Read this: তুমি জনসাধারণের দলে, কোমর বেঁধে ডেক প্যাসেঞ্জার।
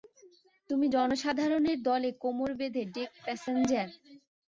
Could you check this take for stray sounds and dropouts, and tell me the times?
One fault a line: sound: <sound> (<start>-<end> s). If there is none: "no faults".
no faults